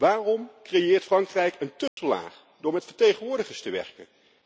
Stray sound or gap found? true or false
true